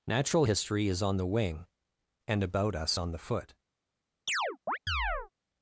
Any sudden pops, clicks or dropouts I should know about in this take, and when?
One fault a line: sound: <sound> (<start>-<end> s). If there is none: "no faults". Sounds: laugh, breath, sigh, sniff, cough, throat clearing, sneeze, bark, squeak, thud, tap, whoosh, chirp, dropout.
sound: chirp (4.3-5.3 s)